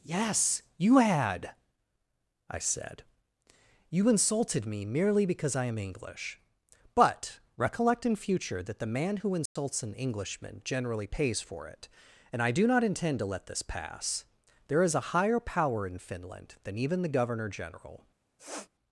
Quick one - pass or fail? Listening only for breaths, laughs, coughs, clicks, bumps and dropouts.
fail